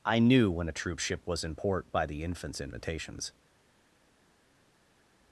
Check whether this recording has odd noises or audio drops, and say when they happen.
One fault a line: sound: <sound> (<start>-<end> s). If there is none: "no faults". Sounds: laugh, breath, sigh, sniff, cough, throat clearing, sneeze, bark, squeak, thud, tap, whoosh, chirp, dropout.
no faults